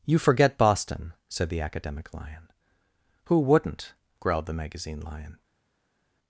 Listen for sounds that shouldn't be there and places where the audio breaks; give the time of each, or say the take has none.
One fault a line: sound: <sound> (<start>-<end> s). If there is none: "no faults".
no faults